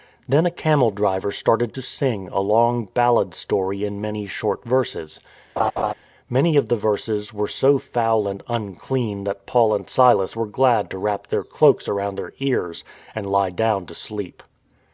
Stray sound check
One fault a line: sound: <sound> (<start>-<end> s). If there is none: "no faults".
sound: laugh (5.6-5.9 s)